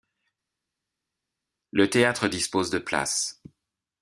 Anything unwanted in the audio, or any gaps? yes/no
no